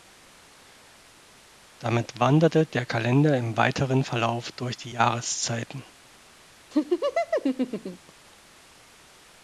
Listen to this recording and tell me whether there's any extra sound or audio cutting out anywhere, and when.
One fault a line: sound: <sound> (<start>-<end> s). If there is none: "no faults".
sound: laugh (6.7-8.1 s)